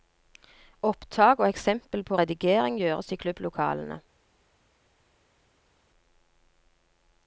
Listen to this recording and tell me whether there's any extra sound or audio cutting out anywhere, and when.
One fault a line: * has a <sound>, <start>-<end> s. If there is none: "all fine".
all fine